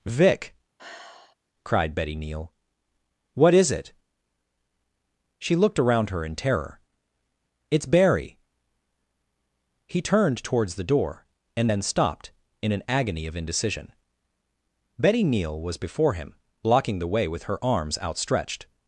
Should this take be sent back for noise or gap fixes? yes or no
yes